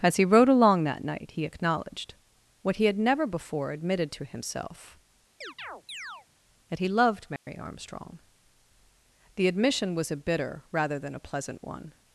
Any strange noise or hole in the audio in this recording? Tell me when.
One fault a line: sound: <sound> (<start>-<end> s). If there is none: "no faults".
sound: chirp (5.4-6.3 s)
sound: dropout (7.4-7.5 s)